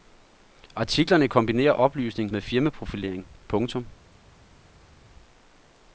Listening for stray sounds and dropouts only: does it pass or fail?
pass